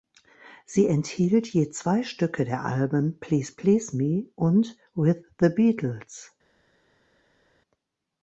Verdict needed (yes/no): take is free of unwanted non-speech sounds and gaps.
yes